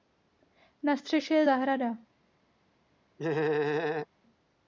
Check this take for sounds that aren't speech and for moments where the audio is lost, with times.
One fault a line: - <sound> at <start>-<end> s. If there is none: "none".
- laugh at 3.2-4.1 s